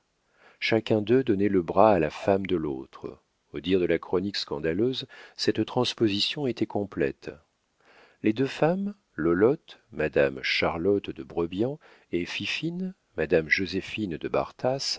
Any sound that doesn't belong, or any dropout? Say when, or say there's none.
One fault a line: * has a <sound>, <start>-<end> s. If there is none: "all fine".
all fine